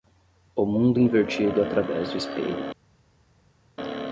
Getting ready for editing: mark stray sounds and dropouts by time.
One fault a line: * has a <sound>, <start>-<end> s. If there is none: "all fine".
all fine